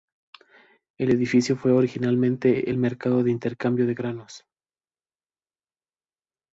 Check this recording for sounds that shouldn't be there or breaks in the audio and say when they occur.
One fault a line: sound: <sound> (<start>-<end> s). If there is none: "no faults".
no faults